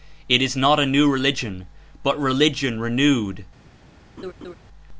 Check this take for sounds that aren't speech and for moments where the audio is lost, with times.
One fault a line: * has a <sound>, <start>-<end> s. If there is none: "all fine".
* has a laugh, 4.2-4.5 s